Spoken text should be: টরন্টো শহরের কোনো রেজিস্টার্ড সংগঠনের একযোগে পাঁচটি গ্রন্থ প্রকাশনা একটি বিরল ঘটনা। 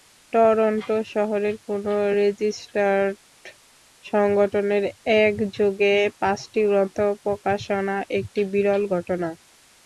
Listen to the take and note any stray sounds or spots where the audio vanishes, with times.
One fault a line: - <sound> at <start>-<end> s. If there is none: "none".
none